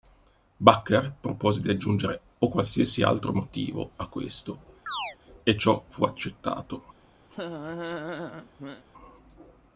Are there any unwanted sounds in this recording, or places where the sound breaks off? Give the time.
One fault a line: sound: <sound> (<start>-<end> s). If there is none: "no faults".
sound: chirp (4.9-5.2 s)
sound: laugh (7.3-8.8 s)